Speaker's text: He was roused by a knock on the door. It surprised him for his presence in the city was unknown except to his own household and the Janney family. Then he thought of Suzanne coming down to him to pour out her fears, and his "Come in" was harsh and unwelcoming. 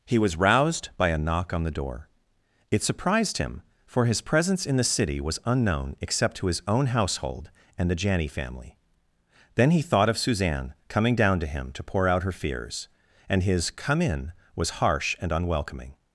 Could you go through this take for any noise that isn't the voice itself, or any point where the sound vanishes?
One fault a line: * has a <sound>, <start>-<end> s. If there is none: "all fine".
all fine